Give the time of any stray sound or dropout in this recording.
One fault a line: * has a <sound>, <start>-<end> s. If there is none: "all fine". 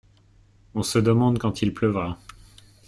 all fine